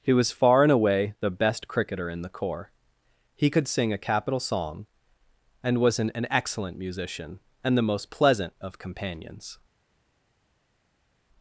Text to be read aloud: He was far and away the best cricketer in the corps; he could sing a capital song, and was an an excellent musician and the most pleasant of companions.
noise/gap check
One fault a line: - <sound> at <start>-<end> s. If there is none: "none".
none